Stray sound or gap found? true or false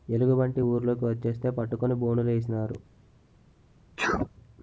true